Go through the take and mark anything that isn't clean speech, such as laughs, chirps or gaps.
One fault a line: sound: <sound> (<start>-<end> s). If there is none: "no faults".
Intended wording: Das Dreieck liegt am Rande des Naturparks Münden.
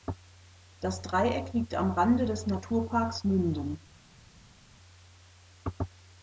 no faults